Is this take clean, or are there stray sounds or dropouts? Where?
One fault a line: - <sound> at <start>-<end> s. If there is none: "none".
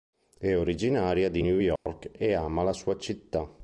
- dropout at 1.8-1.9 s